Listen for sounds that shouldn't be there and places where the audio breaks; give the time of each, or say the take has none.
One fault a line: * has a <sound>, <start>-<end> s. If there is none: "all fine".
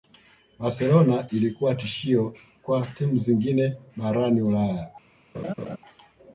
* has a laugh, 5.3-5.8 s